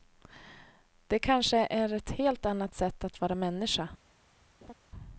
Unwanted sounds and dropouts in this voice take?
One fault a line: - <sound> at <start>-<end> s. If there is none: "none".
- laugh at 4.6-4.7 s